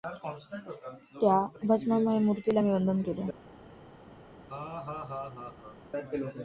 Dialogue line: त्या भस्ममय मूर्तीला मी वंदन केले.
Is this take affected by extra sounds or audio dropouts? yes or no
yes